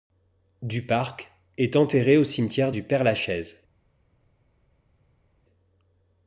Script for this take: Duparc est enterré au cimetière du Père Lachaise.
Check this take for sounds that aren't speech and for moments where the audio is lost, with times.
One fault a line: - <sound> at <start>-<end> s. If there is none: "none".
none